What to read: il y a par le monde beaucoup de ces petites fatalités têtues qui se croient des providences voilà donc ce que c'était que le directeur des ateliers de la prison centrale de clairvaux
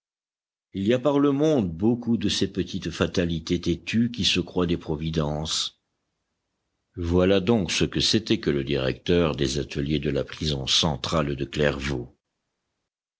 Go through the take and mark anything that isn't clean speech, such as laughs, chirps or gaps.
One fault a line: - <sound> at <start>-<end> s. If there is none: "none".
none